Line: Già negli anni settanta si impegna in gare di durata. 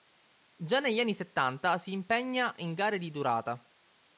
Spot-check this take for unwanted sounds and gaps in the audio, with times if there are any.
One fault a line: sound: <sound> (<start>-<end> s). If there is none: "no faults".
no faults